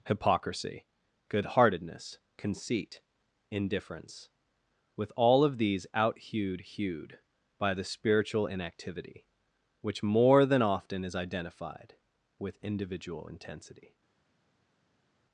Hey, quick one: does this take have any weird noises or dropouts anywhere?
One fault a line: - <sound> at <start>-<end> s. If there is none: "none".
none